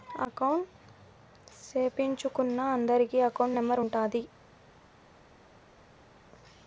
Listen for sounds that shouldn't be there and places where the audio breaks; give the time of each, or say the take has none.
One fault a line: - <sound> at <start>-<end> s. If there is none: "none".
none